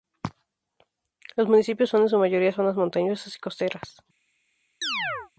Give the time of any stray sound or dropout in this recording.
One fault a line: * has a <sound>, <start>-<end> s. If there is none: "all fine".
* has a chirp, 4.8-5.3 s